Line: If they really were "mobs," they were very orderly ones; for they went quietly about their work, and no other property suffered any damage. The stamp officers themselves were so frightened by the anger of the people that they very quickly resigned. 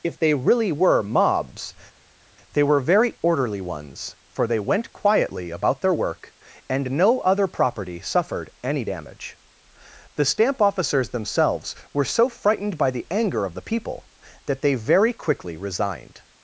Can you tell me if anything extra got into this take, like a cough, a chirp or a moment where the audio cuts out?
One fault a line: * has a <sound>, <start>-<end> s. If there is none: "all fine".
all fine